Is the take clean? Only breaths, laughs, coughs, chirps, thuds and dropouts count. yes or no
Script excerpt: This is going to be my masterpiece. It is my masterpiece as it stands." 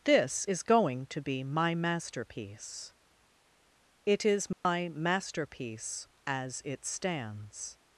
no